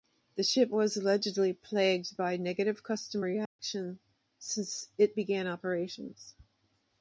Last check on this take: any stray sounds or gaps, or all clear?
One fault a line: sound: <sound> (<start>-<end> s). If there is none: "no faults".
sound: dropout (3.5-3.6 s)